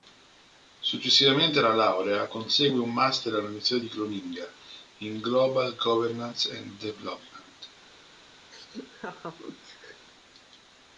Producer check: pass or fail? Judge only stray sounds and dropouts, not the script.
fail